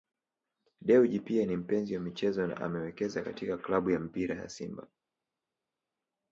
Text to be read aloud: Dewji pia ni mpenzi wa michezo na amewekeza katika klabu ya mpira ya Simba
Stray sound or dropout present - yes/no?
no